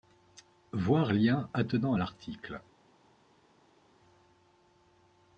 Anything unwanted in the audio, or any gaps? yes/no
no